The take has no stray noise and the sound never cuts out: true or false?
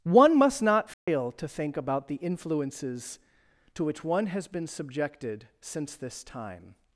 false